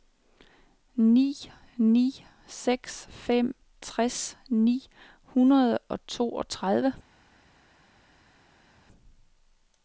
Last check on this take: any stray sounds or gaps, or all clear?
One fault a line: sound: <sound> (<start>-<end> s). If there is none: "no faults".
no faults